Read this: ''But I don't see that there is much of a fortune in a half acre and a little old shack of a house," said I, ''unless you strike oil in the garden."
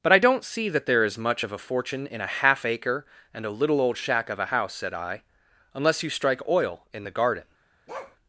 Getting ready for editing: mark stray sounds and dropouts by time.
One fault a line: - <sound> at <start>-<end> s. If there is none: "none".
- bark at 7.9-8.2 s